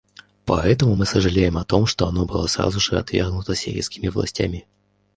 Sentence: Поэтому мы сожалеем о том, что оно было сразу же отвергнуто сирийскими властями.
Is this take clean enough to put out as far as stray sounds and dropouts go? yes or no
yes